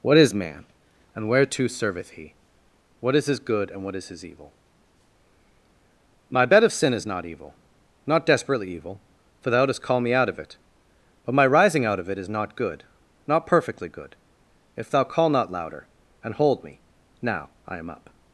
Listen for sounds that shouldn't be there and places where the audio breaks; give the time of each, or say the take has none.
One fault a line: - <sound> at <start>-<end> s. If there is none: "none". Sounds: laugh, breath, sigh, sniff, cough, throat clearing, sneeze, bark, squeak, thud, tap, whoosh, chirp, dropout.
none